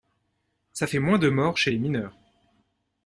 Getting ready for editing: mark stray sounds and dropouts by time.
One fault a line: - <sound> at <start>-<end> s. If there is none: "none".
none